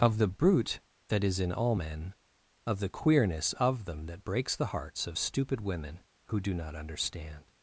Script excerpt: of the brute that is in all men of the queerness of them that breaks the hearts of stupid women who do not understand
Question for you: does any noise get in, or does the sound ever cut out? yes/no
no